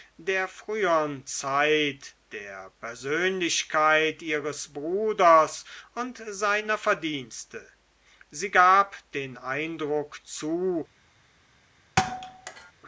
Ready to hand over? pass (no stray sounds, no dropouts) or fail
fail